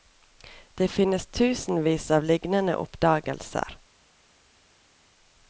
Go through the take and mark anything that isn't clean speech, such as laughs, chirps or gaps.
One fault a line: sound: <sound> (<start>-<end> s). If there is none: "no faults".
no faults